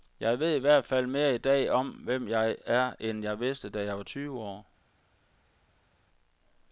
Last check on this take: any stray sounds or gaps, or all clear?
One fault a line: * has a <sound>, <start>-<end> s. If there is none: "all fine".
all fine